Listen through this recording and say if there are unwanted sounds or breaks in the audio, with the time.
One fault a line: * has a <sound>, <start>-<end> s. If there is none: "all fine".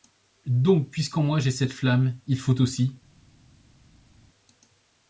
all fine